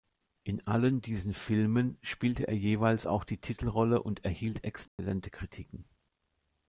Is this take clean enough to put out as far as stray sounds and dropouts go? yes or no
no